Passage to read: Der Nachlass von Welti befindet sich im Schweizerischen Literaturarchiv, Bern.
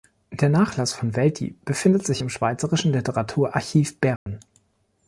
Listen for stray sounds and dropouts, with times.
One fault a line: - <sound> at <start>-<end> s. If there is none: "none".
- dropout at 4.2-4.3 s